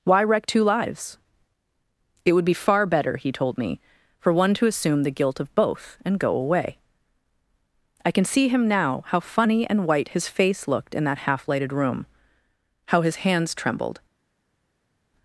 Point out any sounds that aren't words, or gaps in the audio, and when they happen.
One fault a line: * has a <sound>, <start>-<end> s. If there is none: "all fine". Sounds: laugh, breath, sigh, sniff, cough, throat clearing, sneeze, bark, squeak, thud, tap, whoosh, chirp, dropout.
all fine